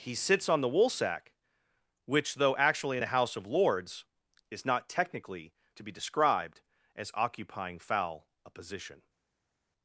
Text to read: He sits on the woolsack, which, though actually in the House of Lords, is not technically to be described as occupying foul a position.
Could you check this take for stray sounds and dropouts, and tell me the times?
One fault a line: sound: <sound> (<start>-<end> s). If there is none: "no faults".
no faults